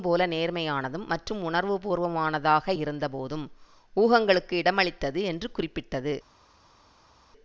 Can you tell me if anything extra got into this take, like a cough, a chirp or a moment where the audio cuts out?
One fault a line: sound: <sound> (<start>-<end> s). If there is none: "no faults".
no faults